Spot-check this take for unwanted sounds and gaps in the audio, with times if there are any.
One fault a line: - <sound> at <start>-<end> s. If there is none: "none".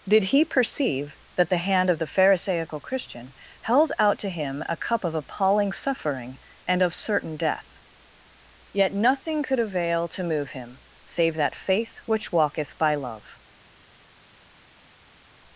none